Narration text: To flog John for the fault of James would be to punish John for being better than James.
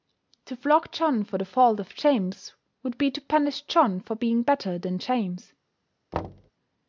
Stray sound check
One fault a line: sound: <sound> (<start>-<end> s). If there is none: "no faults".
sound: thud (6.1-6.5 s)